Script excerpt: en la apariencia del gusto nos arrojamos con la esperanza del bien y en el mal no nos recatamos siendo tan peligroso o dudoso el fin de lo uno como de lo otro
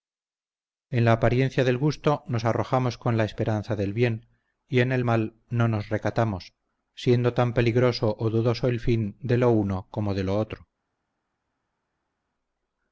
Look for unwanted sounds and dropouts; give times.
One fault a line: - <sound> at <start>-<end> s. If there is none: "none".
none